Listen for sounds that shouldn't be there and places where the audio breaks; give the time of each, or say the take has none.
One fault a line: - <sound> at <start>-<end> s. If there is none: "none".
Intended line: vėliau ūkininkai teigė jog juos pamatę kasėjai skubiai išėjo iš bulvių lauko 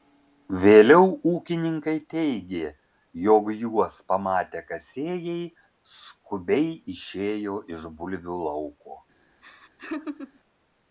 - laugh at 9.4-10.4 s